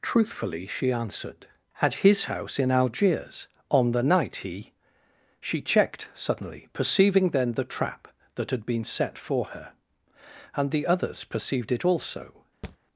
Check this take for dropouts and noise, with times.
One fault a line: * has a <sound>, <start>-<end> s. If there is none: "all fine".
* has a thud, 12.6-12.8 s